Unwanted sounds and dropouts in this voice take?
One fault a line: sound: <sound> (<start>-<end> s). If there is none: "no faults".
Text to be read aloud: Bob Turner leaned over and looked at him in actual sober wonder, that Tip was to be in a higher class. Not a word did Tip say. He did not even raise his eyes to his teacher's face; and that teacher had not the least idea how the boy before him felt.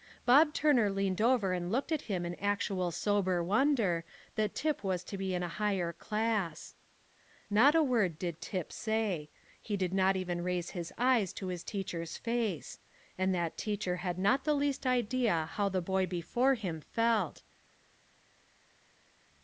no faults